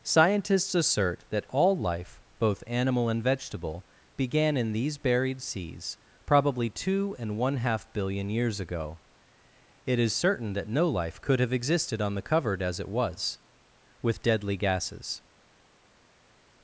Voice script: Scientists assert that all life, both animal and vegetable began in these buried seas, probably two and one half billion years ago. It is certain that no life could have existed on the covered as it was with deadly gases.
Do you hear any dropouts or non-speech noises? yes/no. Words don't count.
no